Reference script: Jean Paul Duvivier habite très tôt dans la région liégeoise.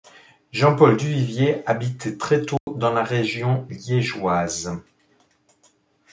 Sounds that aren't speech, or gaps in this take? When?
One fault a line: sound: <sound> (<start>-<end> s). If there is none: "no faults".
sound: dropout (2.6-2.7 s)